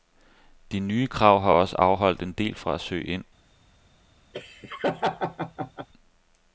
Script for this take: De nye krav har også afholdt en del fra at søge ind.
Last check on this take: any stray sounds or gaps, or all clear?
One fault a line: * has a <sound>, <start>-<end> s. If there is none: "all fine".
* has a laugh, 4.3-5.9 s